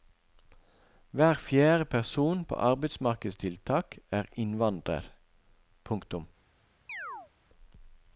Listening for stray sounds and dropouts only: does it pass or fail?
fail